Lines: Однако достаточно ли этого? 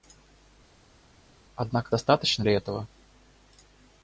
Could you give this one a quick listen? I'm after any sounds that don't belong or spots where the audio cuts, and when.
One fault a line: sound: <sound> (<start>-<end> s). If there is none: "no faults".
no faults